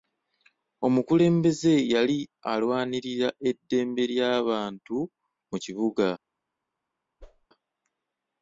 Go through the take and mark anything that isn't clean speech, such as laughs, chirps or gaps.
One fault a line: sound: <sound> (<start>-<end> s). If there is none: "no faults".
sound: whoosh (7.2-7.5 s)